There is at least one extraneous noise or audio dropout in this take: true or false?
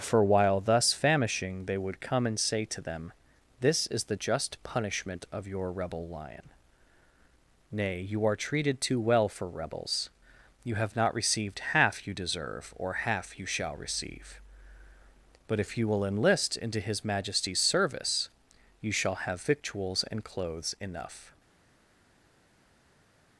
false